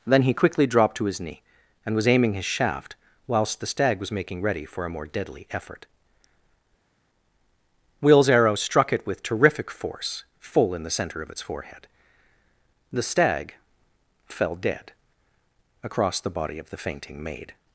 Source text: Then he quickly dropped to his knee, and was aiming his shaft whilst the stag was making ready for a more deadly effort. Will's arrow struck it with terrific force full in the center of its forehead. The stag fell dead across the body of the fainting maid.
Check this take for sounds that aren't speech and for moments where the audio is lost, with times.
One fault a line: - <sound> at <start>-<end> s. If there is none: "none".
none